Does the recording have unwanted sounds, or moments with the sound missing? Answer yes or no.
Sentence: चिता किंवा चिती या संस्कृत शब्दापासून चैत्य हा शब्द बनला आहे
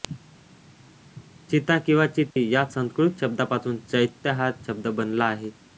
yes